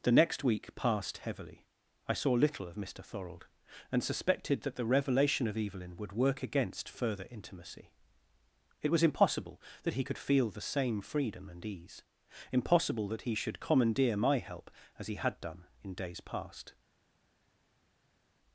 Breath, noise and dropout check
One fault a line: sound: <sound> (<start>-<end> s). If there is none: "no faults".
no faults